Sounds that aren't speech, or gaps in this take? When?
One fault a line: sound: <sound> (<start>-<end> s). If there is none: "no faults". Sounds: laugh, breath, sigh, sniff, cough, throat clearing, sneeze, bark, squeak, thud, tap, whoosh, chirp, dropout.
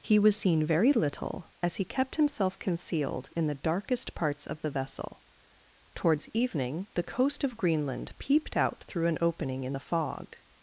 no faults